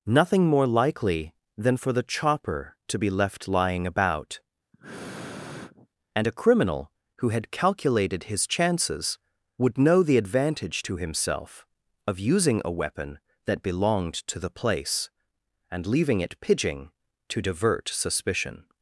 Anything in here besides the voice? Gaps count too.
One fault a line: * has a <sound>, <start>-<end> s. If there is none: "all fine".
* has a sniff, 4.7-5.9 s